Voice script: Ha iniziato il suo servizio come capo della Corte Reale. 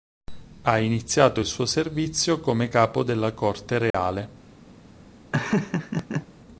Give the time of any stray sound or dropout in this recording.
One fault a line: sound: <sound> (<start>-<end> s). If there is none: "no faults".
sound: dropout (3.9-3.9 s)
sound: laugh (5.3-6.3 s)